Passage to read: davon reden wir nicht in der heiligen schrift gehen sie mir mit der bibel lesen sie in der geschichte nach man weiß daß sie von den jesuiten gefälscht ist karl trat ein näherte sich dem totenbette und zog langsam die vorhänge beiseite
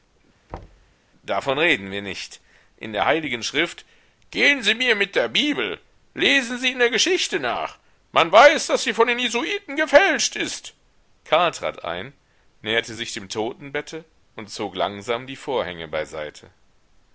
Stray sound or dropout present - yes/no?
yes